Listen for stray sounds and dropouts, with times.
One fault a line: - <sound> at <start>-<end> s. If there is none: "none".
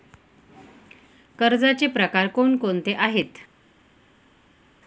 none